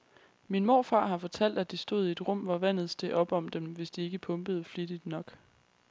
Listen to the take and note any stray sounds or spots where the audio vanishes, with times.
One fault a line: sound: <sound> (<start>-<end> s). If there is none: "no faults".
no faults